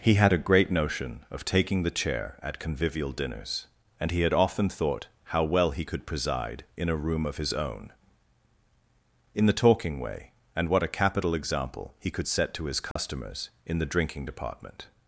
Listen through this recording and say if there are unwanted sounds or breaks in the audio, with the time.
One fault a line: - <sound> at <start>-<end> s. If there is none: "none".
- dropout at 12.9-13.0 s